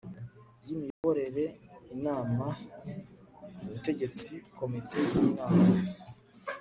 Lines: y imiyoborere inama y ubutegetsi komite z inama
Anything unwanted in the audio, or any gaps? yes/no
yes